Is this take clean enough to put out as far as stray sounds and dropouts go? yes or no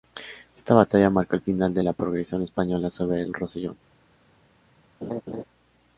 no